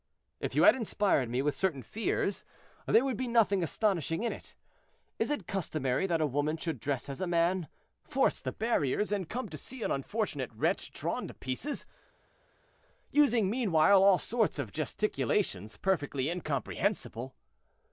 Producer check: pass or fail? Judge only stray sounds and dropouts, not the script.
pass